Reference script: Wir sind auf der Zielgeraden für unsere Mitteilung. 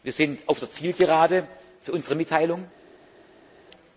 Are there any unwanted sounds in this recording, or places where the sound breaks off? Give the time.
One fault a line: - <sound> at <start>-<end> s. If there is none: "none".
none